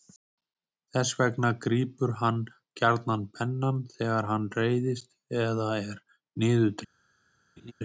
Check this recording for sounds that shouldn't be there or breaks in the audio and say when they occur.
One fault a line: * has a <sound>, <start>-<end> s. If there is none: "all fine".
* has a laugh, 7.6-7.7 s